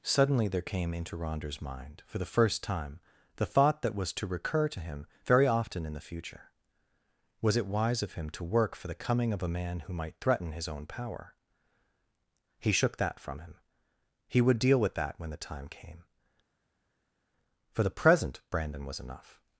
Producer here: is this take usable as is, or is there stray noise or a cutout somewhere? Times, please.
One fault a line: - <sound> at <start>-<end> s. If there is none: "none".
none